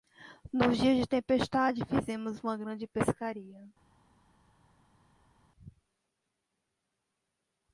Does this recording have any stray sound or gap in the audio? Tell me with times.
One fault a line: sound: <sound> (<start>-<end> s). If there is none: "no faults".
no faults